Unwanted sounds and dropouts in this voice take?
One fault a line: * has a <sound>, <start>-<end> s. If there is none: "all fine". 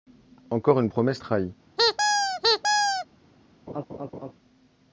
* has a squeak, 1.8-3.1 s
* has a laugh, 3.7-4.3 s